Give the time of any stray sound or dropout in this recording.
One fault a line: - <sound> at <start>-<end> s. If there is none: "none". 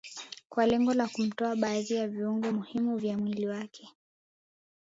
none